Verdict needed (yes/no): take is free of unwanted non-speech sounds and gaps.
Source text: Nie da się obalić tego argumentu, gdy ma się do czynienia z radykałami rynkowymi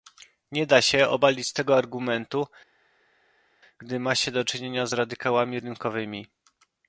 yes